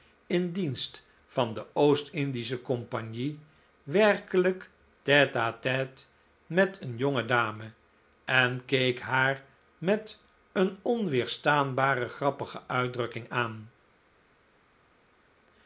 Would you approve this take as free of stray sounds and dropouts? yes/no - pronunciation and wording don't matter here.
yes